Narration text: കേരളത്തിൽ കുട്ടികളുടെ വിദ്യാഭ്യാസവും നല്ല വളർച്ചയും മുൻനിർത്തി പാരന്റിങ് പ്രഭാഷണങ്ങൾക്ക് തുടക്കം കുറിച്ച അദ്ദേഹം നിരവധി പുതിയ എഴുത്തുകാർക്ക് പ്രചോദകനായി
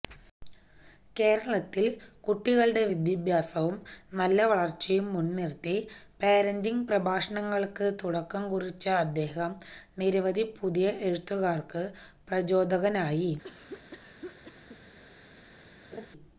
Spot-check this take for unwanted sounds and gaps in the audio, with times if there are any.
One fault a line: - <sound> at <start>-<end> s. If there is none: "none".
- cough at 13.4-14.8 s
- laugh at 15.9-16.1 s